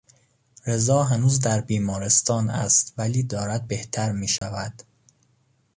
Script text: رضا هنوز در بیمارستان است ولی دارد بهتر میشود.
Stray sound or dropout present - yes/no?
yes